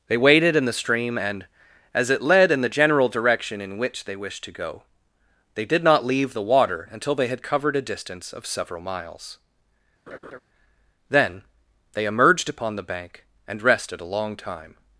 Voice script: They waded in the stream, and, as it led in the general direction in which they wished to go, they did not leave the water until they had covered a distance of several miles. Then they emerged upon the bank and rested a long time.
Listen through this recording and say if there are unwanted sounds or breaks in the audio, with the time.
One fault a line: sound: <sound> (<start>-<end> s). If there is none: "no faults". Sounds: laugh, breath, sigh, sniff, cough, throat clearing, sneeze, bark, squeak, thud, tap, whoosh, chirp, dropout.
sound: laugh (10.1-10.4 s)